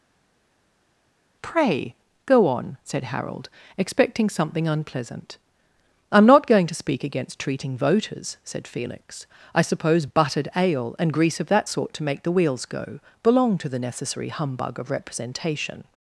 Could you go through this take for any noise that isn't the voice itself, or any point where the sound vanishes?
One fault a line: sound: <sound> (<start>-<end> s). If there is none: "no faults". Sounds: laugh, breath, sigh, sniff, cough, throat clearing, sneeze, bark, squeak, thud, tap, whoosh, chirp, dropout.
no faults